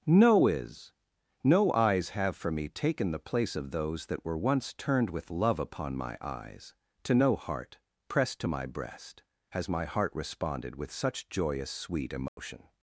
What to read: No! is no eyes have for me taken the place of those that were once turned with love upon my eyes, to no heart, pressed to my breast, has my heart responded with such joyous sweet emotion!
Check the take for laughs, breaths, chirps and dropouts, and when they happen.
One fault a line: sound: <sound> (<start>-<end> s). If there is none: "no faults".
sound: dropout (12.3-12.4 s)